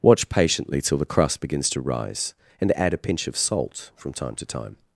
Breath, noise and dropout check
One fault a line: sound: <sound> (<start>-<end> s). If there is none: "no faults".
no faults